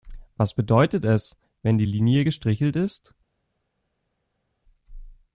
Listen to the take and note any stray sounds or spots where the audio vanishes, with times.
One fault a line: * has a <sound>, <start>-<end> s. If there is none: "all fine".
all fine